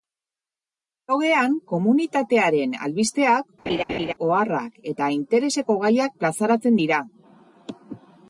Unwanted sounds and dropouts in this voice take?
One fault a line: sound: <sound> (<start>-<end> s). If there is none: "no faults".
sound: laugh (3.7-4.1 s)